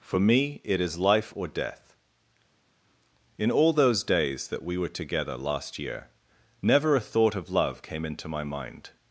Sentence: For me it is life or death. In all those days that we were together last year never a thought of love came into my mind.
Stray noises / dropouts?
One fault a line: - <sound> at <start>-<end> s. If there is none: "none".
none